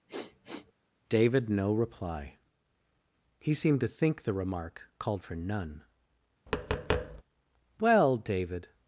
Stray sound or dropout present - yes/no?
yes